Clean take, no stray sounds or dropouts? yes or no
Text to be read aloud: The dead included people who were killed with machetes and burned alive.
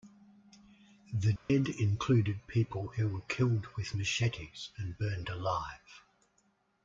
no